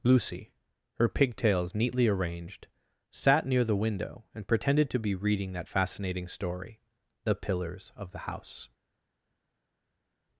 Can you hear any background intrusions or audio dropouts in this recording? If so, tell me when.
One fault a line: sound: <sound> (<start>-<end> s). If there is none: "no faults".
no faults